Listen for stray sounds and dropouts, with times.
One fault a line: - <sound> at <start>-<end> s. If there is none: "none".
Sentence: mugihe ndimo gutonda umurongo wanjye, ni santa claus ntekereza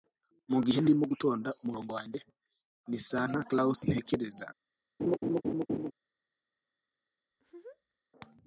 - laugh at 5.0-5.9 s
- laugh at 7.3-8.0 s